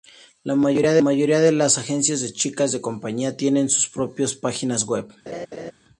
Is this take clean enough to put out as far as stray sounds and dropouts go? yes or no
no